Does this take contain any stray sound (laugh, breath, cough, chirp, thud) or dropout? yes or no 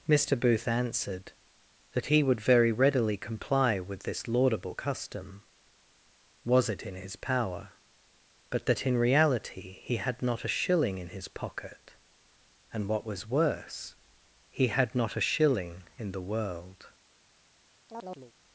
yes